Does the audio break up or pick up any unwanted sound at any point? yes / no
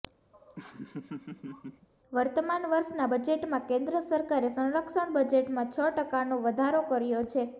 yes